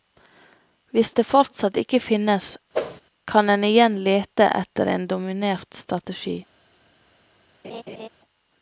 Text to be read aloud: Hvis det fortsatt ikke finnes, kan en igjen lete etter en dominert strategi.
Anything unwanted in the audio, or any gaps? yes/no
yes